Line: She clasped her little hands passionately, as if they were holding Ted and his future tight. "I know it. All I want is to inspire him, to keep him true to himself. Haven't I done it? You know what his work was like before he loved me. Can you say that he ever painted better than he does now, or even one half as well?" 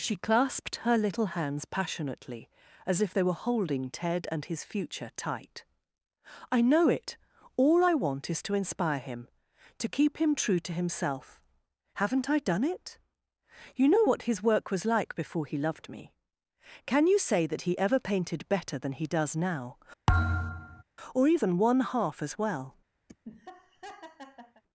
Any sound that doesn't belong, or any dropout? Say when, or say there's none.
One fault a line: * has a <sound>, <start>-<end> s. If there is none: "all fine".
* has a thud, 20.1-20.8 s
* has a laugh, 23.1-24.6 s